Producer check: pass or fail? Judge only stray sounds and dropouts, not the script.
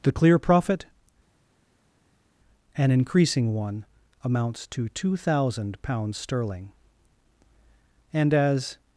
pass